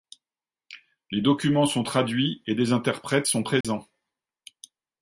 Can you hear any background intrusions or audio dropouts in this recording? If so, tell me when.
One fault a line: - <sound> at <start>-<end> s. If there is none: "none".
- dropout at 3.6-3.6 s